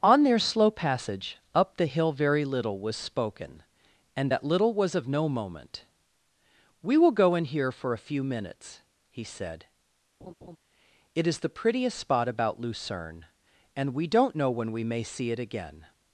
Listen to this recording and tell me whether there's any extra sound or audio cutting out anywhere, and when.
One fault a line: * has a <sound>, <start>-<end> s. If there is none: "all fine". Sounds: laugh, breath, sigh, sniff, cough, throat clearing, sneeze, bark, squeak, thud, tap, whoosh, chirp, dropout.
* has a laugh, 10.2-10.6 s